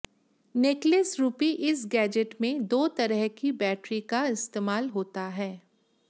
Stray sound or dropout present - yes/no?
no